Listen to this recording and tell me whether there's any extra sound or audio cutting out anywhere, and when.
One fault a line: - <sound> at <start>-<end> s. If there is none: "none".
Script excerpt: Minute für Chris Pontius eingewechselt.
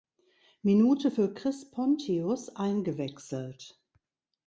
none